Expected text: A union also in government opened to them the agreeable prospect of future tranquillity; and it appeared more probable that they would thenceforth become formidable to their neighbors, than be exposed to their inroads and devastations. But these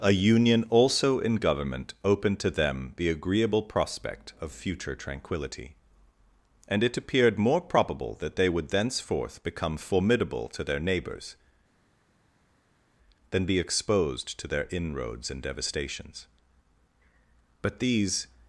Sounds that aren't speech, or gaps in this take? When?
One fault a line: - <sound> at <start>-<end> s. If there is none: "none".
none